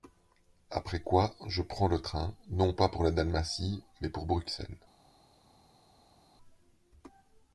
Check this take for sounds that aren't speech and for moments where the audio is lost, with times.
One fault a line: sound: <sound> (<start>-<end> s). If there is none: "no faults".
no faults